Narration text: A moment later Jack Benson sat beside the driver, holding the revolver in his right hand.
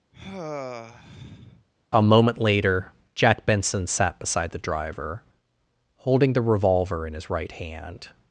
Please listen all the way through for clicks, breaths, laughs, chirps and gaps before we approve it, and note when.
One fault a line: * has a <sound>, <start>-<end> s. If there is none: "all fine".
* has a sigh, 0.1-1.7 s